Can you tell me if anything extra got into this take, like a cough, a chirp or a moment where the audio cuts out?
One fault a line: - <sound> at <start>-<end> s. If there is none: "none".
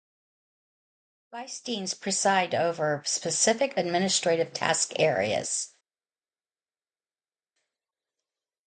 none